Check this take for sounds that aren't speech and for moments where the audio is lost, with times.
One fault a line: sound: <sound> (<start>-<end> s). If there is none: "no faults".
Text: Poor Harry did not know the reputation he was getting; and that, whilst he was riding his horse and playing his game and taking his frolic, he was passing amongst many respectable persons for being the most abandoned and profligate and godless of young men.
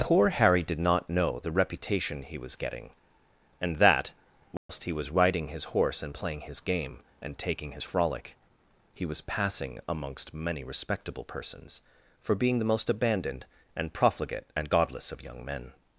sound: dropout (4.6-4.7 s)